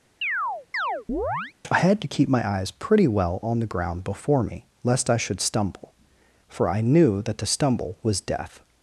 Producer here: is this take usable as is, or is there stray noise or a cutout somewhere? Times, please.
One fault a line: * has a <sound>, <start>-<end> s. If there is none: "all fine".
* has a chirp, 0.2-1.5 s